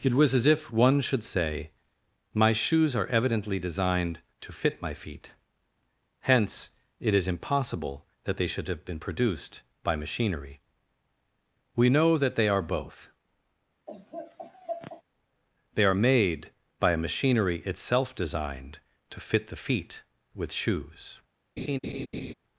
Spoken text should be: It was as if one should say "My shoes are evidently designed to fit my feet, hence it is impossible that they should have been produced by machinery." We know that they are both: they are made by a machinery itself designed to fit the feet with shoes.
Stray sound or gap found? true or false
true